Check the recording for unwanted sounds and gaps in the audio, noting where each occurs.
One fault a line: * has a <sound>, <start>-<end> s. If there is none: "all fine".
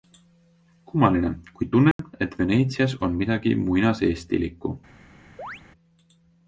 * has a dropout, 1.9-2.0 s
* has a chirp, 5.4-5.6 s